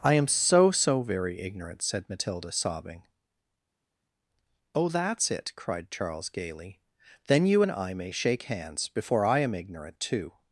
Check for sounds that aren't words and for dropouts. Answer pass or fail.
pass